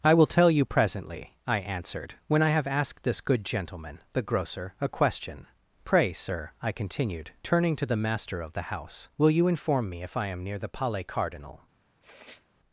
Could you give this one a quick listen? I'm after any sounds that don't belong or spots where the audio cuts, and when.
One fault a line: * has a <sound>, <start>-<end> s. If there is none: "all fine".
* has a sniff, 12.0-12.5 s